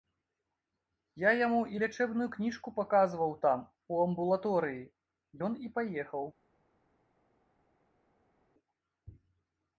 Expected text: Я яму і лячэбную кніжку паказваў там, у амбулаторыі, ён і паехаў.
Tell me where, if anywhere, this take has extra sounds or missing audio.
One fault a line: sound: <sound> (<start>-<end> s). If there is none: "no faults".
no faults